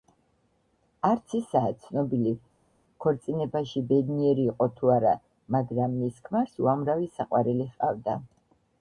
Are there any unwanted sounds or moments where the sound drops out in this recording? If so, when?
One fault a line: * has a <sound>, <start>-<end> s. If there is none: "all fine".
all fine